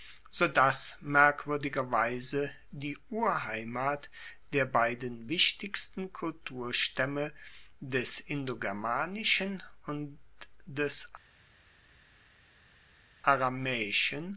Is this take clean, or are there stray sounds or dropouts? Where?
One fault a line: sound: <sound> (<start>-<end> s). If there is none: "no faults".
no faults